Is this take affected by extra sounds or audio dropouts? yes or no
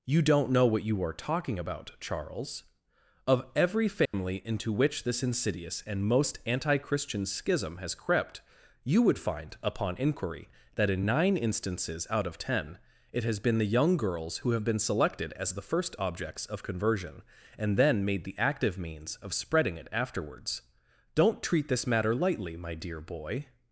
yes